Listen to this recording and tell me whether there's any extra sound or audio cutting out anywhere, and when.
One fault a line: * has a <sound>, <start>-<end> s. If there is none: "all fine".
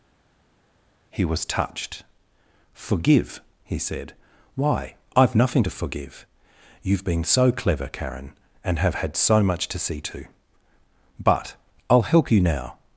all fine